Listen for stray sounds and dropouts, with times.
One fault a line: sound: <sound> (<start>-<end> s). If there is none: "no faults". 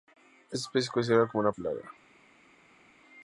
no faults